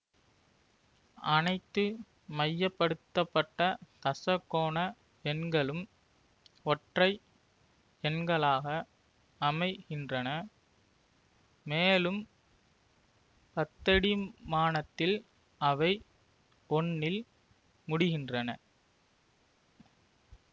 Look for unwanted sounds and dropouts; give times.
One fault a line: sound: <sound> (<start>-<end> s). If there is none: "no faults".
no faults